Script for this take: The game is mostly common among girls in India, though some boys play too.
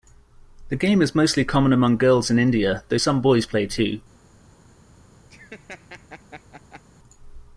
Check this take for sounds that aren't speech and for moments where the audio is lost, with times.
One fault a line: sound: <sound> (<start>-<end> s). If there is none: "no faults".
sound: laugh (5.3-6.8 s)